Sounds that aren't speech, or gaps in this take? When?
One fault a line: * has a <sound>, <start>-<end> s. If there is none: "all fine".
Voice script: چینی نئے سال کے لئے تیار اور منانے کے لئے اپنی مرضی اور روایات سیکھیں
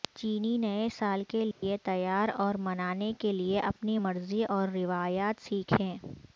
* has a dropout, 1.5-1.6 s